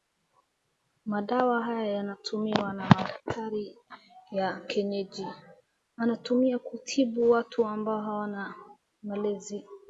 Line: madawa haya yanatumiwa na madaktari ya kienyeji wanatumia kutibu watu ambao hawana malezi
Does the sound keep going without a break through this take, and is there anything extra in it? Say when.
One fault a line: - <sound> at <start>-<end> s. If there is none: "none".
none